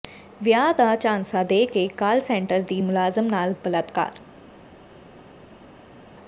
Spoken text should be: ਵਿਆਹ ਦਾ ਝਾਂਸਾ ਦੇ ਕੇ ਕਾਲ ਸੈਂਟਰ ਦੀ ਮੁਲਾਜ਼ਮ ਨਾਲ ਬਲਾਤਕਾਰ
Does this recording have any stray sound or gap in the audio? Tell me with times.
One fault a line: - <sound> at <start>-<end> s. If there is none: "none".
none